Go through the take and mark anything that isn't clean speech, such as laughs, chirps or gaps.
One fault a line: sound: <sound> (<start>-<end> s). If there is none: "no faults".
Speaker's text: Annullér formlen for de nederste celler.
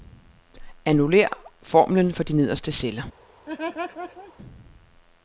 sound: laugh (3.5-4.3 s)